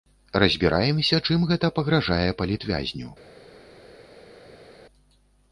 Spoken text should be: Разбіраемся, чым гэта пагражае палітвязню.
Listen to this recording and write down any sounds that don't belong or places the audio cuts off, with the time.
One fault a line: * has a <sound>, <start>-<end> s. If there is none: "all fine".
all fine